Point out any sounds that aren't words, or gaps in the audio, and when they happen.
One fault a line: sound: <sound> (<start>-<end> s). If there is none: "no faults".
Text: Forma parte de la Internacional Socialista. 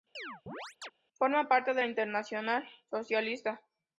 sound: chirp (0.1-0.9 s)